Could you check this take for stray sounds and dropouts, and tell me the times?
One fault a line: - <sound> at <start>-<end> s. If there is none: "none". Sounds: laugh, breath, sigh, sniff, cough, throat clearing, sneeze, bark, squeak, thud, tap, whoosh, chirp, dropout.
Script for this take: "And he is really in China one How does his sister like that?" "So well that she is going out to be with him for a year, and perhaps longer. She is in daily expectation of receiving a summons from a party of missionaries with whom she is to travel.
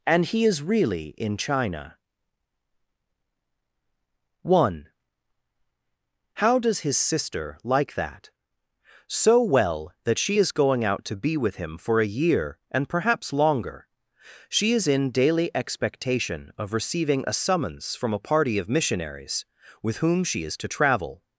none